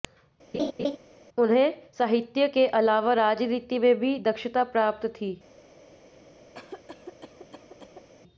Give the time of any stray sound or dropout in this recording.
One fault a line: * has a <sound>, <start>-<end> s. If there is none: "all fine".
* has a laugh, 0.5-1.0 s
* has a cough, 6.5-8.1 s